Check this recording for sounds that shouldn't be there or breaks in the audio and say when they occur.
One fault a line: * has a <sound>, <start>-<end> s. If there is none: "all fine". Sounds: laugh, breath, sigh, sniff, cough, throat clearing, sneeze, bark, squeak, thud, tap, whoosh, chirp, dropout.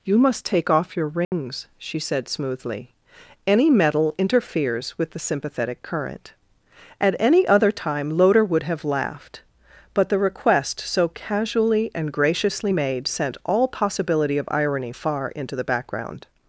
* has a dropout, 1.2-1.3 s